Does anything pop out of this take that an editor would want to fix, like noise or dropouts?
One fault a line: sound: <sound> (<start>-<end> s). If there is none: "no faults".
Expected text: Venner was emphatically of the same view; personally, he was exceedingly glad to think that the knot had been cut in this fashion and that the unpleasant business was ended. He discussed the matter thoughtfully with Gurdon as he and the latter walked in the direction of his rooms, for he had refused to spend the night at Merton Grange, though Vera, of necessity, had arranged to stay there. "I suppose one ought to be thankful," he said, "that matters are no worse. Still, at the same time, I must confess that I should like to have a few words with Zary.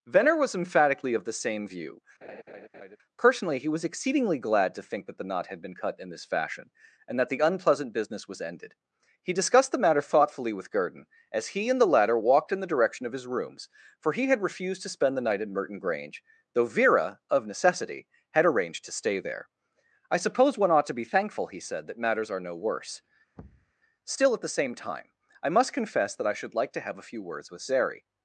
sound: laugh (2.2-3.0 s)
sound: thud (23.4-23.7 s)